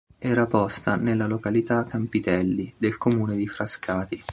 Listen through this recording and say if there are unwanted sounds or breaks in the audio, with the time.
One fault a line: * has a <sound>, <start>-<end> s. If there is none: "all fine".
all fine